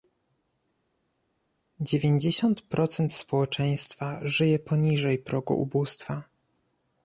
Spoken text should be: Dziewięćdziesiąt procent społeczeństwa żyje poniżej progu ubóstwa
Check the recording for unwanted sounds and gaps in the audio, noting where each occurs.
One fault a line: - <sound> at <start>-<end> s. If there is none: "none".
none